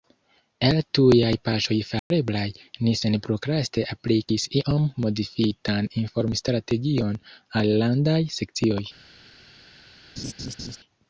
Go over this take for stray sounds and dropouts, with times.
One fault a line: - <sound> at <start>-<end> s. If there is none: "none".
- dropout at 2.0-2.1 s
- laugh at 10.2-10.8 s